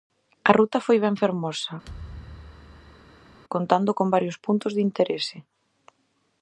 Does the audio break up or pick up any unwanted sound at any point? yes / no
yes